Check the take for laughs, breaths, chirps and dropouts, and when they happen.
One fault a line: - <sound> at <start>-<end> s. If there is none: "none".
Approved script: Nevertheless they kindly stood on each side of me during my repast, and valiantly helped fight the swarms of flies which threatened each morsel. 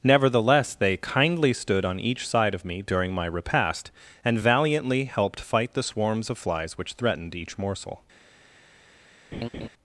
- laugh at 9.3-9.7 s